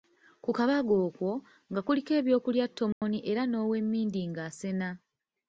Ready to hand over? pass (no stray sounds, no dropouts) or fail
fail